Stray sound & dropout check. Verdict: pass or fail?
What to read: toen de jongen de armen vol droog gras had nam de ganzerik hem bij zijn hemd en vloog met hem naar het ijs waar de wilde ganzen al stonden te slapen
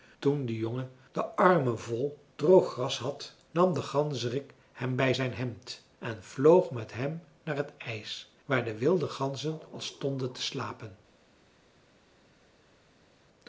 pass